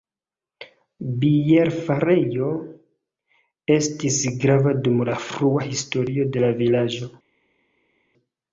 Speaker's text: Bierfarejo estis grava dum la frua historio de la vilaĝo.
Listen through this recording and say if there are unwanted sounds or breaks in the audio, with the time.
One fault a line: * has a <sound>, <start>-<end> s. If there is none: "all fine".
all fine